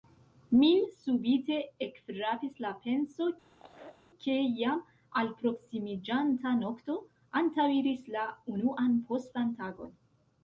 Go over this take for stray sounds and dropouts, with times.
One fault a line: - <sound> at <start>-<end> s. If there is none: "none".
- laugh at 3.5-4.0 s